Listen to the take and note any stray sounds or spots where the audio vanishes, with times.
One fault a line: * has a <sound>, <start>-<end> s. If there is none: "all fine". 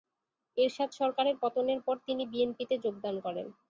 all fine